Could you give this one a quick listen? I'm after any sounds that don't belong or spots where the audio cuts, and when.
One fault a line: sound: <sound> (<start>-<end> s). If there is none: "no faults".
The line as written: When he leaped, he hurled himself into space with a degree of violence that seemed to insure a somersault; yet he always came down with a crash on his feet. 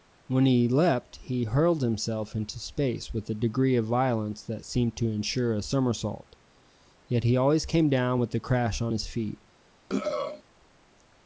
sound: throat clearing (9.9-10.4 s)